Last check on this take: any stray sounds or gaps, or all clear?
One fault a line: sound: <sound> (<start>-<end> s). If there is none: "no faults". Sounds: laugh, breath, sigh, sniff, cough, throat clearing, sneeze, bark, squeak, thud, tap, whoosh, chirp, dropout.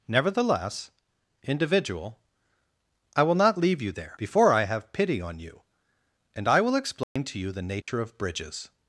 sound: dropout (7.0-7.2 s)
sound: dropout (7.8-7.9 s)